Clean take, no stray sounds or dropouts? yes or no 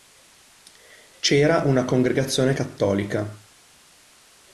yes